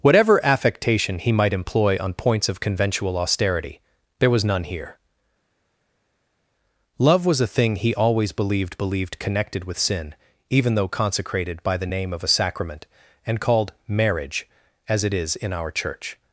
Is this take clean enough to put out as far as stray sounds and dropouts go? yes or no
yes